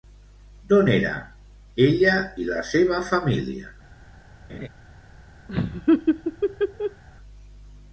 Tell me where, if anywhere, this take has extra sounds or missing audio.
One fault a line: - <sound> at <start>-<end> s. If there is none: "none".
- laugh at 4.5-4.7 s
- laugh at 5.5-7.0 s